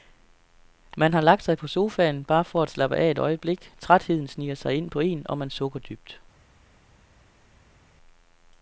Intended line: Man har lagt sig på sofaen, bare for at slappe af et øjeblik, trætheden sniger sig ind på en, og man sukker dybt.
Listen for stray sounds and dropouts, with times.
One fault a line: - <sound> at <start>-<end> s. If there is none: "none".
none